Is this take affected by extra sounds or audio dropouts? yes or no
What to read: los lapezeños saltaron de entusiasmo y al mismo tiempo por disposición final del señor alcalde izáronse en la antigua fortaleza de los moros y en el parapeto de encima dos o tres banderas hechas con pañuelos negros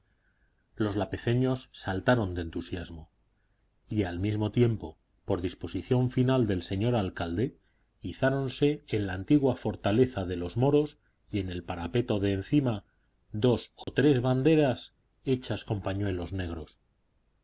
yes